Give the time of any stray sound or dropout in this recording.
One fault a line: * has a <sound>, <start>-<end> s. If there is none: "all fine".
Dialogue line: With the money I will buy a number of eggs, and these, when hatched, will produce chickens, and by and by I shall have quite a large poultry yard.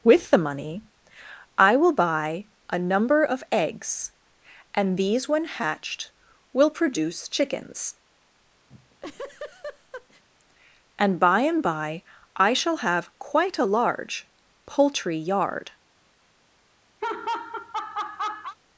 * has a laugh, 8.7-10.2 s
* has a laugh, 17.0-18.6 s